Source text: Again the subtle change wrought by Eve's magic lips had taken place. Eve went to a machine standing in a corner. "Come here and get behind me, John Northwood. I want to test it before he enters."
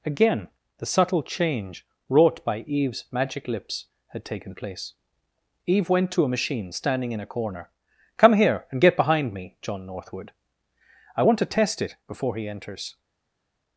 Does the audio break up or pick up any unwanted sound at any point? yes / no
no